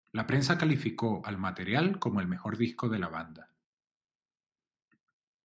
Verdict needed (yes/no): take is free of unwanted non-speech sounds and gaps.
yes